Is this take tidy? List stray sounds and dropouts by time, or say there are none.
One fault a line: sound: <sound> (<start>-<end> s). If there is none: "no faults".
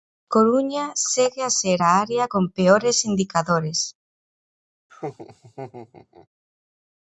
sound: laugh (4.9-6.3 s)